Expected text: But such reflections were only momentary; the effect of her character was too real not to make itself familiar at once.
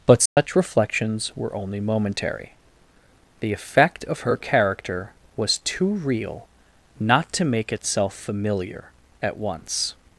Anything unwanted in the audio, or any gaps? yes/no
yes